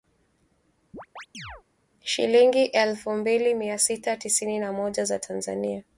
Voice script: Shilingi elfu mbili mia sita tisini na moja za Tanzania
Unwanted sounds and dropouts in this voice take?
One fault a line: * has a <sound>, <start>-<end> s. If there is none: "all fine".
* has a chirp, 0.9-1.6 s